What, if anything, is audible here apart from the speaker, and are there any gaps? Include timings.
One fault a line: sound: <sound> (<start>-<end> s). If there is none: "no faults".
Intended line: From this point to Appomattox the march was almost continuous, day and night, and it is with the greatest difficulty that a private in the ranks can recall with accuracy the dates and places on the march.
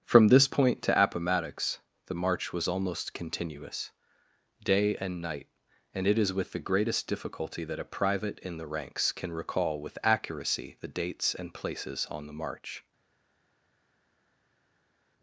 no faults